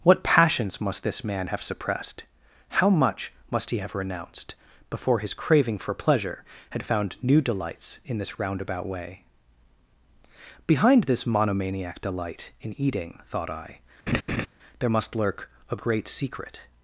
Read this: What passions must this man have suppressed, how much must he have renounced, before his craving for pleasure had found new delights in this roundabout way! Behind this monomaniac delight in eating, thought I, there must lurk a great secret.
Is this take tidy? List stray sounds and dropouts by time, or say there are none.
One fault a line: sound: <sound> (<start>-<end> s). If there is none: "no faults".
sound: laugh (14.1-14.5 s)